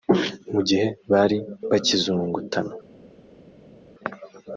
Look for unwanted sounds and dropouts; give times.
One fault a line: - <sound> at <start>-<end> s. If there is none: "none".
none